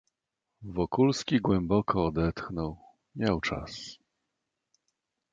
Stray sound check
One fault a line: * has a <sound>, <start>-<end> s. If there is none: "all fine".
all fine